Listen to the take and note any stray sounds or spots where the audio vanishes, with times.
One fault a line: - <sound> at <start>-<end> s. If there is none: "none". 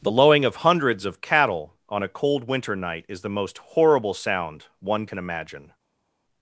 none